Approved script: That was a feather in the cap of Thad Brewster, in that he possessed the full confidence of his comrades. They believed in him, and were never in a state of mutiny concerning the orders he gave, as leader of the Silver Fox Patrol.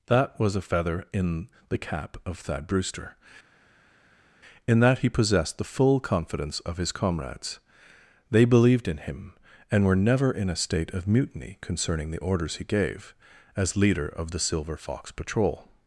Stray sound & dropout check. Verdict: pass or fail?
pass